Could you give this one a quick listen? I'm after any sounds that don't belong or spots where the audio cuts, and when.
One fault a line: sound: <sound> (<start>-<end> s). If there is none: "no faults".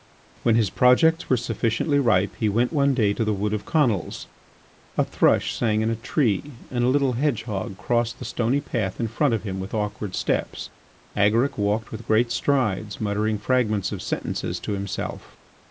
no faults